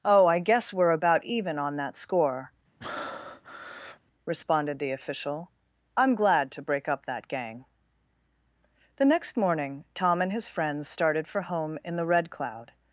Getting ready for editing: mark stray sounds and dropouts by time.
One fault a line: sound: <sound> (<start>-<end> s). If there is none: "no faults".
sound: breath (2.8-4.0 s)